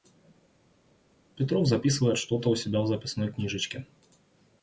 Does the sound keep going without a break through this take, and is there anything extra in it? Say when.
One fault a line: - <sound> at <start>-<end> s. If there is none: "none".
none